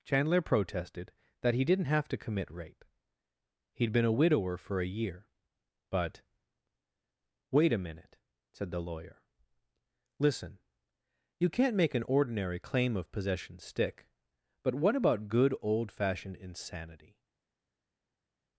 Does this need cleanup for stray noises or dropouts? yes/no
no